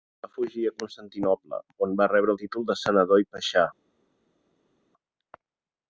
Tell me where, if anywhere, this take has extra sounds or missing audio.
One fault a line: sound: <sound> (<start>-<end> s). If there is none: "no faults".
no faults